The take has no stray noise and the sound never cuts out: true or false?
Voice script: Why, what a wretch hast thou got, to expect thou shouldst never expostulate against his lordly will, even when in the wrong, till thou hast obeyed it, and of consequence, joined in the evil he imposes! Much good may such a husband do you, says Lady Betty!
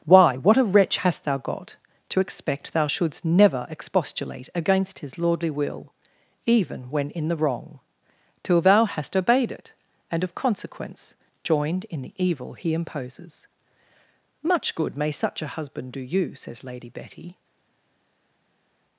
true